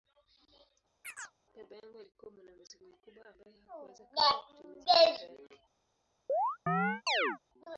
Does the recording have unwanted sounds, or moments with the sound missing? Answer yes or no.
yes